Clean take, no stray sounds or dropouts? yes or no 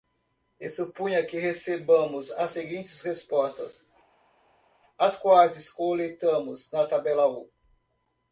yes